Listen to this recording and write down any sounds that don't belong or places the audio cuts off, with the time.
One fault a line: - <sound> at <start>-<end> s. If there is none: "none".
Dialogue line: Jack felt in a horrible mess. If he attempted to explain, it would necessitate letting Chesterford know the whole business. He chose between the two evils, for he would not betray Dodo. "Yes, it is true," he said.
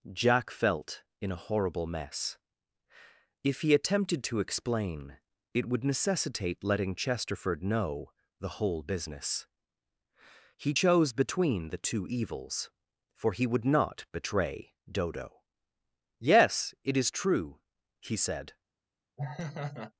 - laugh at 19.2-19.9 s